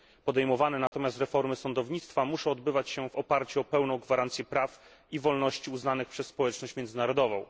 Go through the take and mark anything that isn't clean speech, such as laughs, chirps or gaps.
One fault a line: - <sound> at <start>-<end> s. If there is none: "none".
- dropout at 0.9-0.9 s